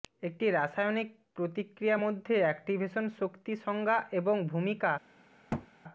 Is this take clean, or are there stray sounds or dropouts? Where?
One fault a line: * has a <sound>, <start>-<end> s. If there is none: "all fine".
* has a thud, 5.5-5.7 s